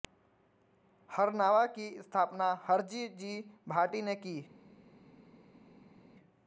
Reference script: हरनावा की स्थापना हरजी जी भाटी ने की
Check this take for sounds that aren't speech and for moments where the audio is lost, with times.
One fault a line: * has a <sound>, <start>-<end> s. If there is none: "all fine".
all fine